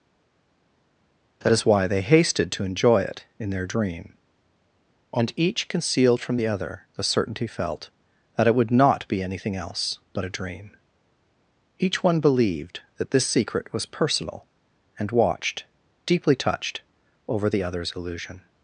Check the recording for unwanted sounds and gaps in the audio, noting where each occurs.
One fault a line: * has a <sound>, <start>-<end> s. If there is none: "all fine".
all fine